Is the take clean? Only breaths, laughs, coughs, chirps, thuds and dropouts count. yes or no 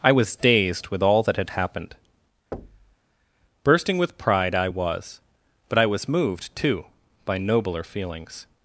no